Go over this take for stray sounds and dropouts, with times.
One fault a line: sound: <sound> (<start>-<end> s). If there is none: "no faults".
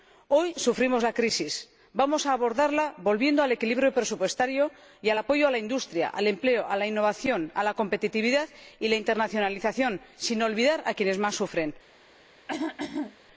sound: throat clearing (12.5-13.2 s)